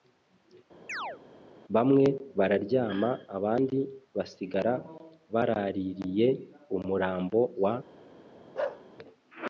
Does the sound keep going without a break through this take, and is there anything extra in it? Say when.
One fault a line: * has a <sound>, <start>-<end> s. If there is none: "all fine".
* has a chirp, 0.9-1.2 s
* has a bark, 8.5-8.8 s